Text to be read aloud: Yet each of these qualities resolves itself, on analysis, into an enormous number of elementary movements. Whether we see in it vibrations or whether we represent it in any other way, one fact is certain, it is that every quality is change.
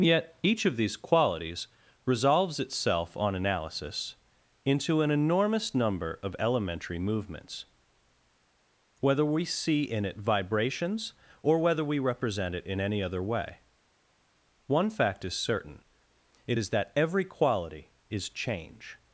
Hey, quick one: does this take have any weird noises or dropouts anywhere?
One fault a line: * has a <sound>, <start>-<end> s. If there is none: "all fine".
all fine